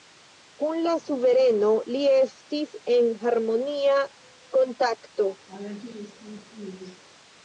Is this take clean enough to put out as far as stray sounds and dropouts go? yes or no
no